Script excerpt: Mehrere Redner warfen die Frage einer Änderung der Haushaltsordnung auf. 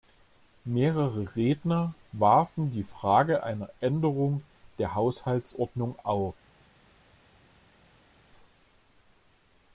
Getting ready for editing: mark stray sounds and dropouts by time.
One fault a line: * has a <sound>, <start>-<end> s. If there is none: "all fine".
all fine